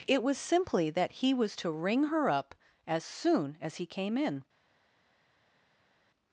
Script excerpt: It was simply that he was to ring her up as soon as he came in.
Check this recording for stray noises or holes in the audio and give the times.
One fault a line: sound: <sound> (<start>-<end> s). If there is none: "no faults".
no faults